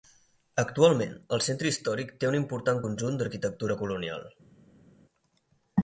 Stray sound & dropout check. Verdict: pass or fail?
pass